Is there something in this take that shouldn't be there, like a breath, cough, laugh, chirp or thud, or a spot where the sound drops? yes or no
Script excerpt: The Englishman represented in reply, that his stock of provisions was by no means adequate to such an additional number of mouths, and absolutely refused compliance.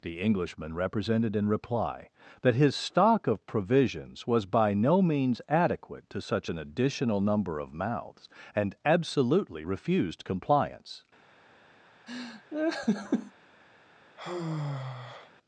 yes